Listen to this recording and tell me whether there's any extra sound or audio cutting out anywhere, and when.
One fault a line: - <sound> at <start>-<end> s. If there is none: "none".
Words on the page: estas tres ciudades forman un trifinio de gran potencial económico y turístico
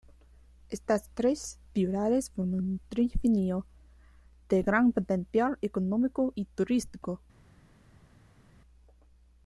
none